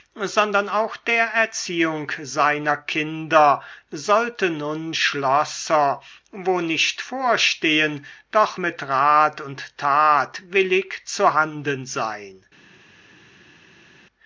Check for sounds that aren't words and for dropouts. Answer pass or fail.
pass